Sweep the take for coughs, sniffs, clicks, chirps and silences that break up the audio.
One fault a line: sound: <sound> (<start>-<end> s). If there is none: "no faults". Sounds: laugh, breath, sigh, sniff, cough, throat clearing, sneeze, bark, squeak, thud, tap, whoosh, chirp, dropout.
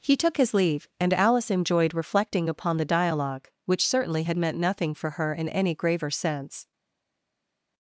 no faults